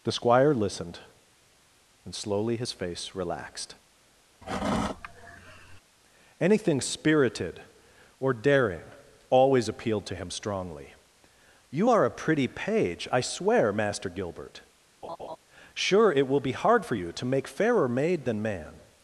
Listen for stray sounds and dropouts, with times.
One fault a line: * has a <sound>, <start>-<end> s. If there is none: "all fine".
* has a sigh, 4.4-5.8 s
* has a laugh, 15.0-15.4 s